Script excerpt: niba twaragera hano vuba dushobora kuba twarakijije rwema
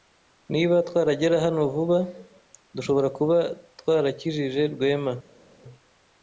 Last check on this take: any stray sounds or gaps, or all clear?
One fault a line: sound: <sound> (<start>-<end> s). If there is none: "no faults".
no faults